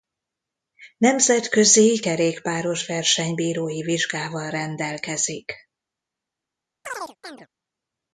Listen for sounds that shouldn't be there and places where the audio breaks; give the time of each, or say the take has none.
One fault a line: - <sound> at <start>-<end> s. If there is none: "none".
- chirp at 6.8-7.5 s